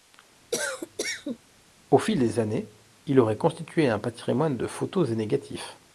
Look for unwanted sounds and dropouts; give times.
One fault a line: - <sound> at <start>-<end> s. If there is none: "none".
- cough at 0.5-1.4 s